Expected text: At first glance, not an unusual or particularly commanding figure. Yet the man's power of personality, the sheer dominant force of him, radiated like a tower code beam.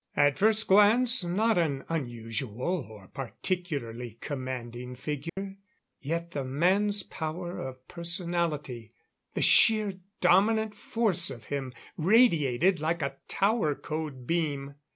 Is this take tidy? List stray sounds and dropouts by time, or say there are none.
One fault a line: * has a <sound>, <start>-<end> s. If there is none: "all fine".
* has a dropout, 5.3-5.4 s